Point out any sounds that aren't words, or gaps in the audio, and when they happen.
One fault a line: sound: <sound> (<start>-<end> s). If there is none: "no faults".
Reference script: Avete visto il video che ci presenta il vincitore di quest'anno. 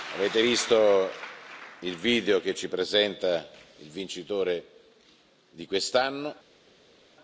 no faults